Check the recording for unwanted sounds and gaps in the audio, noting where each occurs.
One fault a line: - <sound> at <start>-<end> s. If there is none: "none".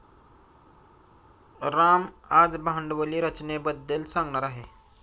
none